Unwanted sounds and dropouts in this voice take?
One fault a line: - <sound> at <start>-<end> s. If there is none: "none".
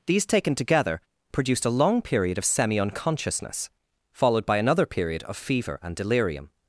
none